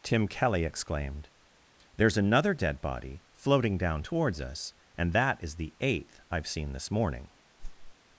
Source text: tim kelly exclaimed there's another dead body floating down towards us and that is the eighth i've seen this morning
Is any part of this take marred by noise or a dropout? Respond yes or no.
yes